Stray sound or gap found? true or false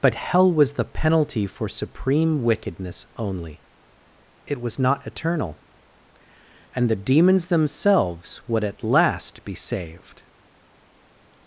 false